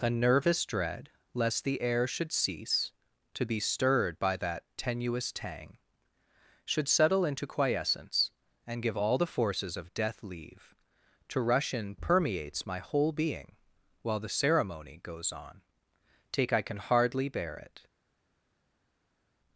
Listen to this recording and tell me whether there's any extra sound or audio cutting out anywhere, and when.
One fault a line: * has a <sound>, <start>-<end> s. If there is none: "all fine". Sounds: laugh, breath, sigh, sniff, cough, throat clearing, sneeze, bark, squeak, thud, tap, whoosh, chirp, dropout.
all fine